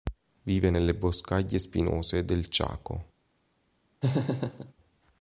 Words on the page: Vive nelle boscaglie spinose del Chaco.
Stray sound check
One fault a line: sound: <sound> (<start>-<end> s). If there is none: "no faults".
sound: laugh (4.0-4.7 s)